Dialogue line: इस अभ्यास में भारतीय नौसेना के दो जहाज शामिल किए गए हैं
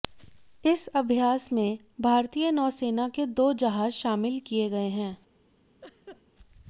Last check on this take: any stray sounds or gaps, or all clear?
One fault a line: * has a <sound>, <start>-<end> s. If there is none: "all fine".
* has a laugh, 5.8-6.2 s